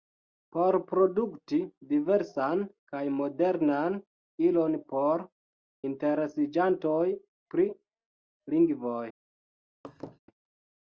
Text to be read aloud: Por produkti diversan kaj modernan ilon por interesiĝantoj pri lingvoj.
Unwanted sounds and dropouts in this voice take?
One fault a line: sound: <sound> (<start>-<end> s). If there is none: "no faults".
sound: laugh (9.8-10.2 s)